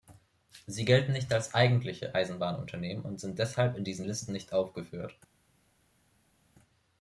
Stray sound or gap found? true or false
false